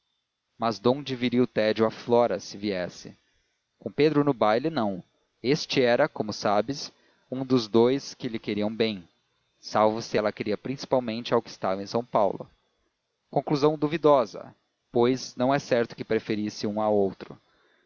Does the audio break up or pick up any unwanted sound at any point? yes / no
no